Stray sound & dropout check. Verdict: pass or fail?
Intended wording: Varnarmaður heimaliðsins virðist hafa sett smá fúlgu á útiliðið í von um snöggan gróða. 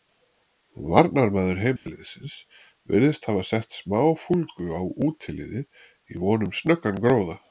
fail